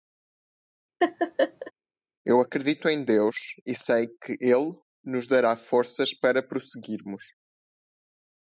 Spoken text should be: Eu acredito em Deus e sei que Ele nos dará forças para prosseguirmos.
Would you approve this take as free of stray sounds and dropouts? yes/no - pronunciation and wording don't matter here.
no